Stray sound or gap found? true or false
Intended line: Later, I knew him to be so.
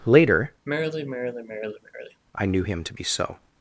true